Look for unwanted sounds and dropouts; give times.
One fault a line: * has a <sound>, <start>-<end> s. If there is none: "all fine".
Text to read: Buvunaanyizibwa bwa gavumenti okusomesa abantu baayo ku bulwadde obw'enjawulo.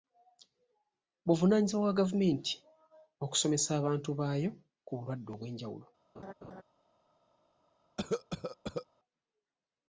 * has a laugh, 6.1-6.6 s
* has a cough, 8.0-8.9 s